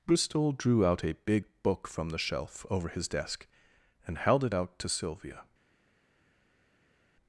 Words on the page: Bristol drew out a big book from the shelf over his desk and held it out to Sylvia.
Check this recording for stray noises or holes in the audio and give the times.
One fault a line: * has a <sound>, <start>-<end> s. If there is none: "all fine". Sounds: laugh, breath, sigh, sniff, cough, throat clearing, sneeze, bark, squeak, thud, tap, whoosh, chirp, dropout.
all fine